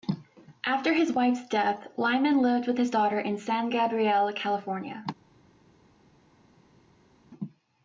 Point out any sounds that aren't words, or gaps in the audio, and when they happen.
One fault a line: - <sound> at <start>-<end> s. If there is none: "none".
none